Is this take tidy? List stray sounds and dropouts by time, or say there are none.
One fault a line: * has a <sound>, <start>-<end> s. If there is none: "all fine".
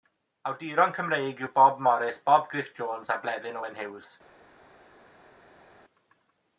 all fine